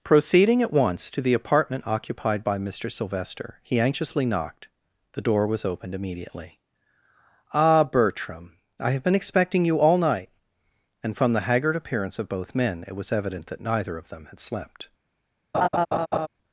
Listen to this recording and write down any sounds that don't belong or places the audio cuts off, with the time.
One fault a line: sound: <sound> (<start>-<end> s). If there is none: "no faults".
sound: laugh (15.5-16.3 s)